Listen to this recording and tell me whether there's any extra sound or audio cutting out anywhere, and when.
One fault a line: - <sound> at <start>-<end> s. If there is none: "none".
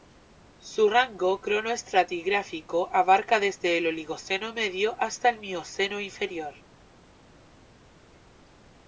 none